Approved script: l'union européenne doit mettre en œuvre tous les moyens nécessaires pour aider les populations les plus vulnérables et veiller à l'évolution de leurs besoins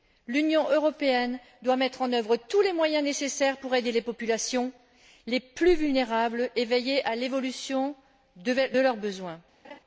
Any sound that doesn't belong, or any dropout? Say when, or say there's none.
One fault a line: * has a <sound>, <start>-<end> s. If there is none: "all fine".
* has a laugh, 9.6-9.8 s